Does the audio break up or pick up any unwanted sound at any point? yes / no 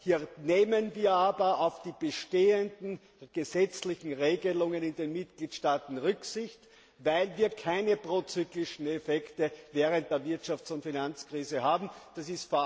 no